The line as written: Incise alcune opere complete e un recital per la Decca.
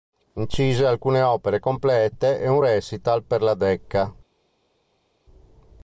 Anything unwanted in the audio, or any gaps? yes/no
no